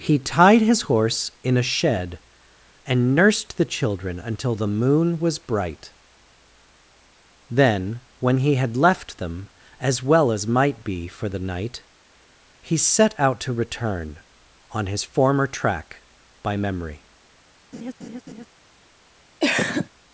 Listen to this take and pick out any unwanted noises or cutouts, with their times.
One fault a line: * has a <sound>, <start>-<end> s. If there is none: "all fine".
* has a laugh, 17.7-18.5 s
* has a cough, 19.4-19.9 s